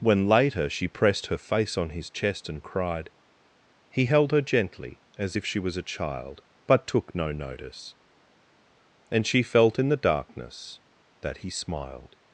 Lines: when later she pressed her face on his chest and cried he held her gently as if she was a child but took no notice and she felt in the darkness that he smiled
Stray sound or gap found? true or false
false